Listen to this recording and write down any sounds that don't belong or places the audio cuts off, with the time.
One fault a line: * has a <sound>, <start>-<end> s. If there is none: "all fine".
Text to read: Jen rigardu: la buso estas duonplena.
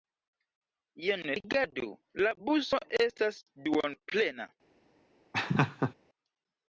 * has a laugh, 5.3-5.9 s